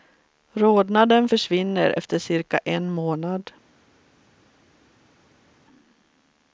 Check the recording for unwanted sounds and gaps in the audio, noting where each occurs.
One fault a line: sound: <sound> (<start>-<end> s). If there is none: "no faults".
no faults